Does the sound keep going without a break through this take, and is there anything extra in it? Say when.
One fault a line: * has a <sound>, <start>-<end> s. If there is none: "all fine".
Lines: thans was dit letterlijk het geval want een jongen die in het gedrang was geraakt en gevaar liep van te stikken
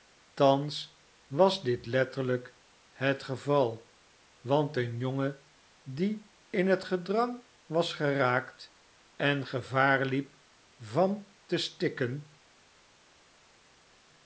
all fine